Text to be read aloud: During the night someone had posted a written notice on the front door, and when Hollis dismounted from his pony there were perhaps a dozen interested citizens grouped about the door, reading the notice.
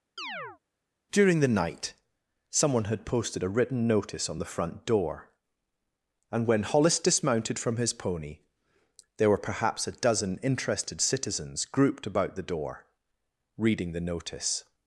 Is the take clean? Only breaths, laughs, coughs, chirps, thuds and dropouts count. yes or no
no